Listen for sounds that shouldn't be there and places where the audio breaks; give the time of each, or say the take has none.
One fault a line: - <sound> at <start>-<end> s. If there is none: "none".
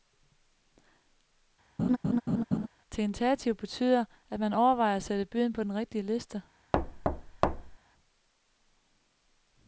- laugh at 1.8-2.7 s
- thud at 6.7-7.8 s